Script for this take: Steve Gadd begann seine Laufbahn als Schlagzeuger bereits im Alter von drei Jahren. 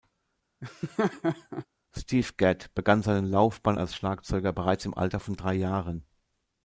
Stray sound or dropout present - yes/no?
yes